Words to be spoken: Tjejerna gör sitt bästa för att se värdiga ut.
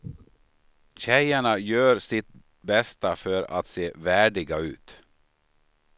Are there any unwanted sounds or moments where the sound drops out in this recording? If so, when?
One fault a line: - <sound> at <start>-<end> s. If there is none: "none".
none